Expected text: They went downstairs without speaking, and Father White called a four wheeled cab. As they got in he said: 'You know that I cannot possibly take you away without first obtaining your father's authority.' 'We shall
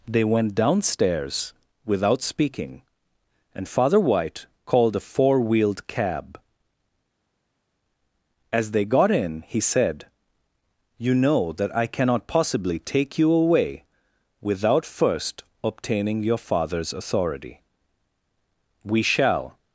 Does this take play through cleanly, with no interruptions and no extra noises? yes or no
yes